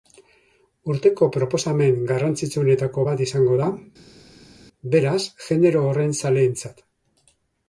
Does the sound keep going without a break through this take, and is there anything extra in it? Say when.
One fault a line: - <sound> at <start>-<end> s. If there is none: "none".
none